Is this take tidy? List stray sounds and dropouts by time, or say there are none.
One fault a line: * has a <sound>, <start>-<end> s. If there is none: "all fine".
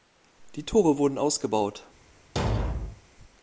* has a thud, 2.4-3.0 s